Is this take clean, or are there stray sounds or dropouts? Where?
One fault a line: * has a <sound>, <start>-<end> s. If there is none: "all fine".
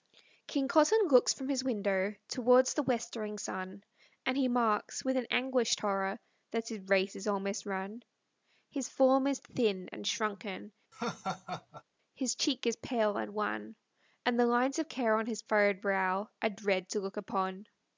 * has a laugh, 10.9-11.8 s